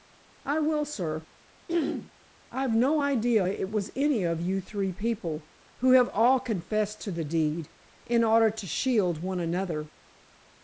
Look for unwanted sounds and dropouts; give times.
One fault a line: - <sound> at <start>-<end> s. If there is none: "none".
- throat clearing at 1.7-2.1 s